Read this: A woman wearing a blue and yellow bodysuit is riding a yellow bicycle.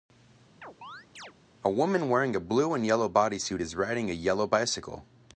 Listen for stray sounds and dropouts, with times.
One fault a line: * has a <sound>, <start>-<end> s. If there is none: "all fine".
* has a chirp, 0.6-1.3 s